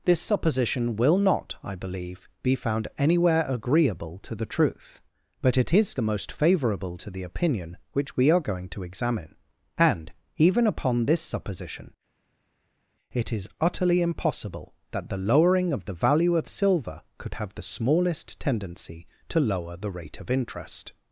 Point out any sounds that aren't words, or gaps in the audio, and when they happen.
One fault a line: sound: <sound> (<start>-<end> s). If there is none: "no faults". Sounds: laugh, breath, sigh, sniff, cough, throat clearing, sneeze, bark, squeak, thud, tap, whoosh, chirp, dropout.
no faults